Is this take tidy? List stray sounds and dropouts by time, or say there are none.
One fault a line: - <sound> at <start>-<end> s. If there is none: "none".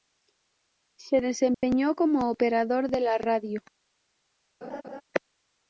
- dropout at 1.5-1.6 s
- laugh at 4.6-5.0 s